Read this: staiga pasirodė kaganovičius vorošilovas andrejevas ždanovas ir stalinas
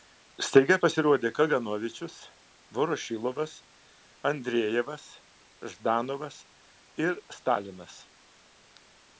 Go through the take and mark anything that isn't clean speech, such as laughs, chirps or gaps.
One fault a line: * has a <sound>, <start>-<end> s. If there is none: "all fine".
all fine